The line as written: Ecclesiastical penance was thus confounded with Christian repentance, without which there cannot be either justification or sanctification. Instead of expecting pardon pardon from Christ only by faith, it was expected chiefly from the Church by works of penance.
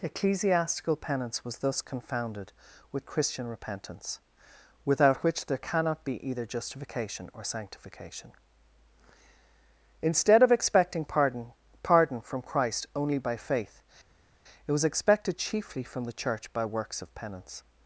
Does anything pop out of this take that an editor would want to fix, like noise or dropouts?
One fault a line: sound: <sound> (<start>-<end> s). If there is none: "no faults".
no faults